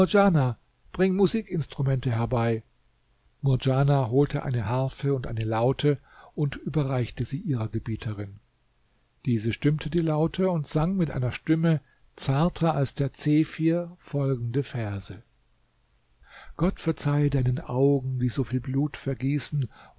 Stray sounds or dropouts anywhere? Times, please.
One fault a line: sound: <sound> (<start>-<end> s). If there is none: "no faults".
no faults